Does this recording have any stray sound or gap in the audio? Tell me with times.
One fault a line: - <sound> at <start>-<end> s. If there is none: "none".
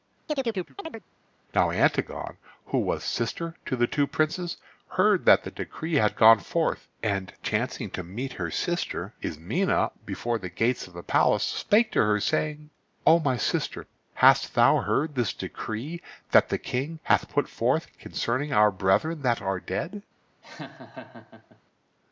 - chirp at 0.3-1.0 s
- laugh at 20.4-21.6 s